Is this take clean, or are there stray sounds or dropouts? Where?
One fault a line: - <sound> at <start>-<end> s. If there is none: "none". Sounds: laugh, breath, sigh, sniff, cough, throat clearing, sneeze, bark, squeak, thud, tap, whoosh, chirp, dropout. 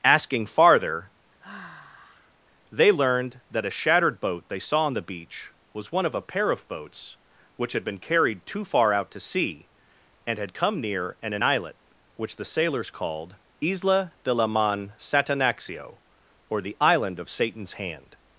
- sigh at 1.4-2.3 s